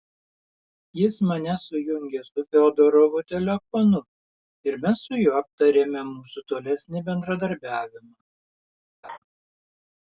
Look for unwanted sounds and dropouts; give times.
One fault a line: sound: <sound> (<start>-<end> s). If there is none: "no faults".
sound: laugh (9.0-9.2 s)